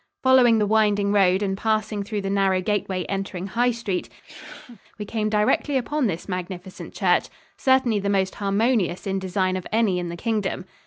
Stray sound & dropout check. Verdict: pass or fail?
fail